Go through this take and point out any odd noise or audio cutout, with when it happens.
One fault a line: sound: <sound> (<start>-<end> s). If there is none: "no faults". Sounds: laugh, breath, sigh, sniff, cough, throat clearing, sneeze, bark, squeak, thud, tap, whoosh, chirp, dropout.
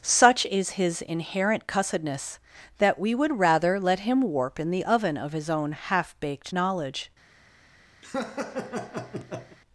sound: laugh (8.0-9.6 s)